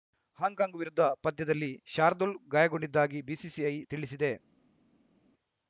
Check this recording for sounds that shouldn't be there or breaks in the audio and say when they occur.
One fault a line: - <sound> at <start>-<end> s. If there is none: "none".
none